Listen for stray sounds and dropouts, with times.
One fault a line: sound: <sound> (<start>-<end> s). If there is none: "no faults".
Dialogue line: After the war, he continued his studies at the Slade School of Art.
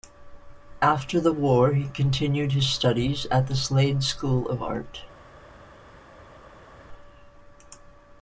no faults